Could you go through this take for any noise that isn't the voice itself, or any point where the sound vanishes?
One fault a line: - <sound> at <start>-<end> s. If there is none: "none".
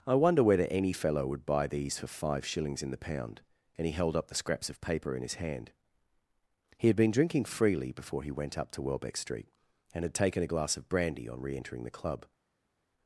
none